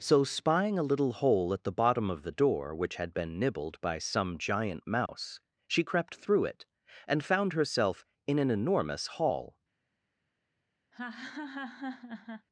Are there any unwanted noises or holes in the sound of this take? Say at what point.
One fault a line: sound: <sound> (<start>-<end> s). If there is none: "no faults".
sound: dropout (5.1-5.1 s)
sound: laugh (10.9-12.5 s)